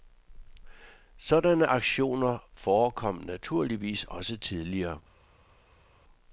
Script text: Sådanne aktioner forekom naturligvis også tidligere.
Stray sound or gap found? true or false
false